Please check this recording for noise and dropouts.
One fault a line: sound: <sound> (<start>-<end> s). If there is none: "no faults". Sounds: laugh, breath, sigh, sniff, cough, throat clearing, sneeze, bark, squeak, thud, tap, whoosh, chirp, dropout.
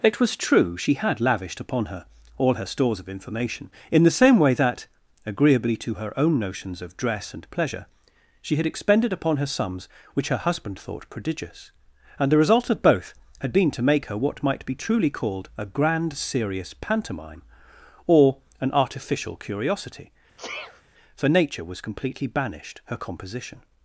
sound: sneeze (20.4-20.8 s)